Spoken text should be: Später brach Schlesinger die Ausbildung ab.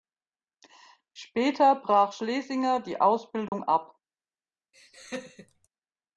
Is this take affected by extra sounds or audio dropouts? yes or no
yes